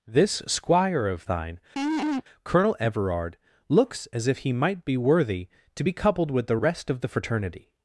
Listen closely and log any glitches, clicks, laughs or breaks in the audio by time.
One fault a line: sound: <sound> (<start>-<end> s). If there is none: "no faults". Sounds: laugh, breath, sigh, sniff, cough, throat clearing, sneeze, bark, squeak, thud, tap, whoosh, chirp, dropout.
sound: laugh (1.8-2.2 s)